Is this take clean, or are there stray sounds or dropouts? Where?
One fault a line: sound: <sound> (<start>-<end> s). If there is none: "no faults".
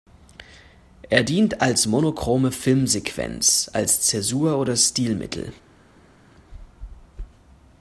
no faults